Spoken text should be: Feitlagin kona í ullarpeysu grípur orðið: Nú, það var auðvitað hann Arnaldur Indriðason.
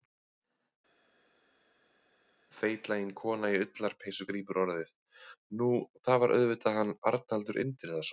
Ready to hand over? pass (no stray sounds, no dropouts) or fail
pass